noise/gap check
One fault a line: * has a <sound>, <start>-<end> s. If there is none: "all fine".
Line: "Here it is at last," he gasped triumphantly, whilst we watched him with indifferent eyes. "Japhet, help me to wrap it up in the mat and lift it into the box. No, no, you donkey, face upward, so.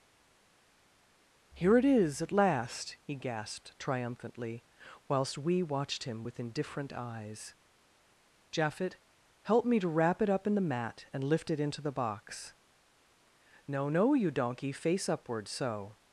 all fine